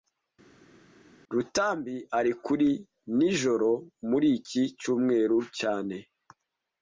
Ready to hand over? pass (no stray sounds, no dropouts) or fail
pass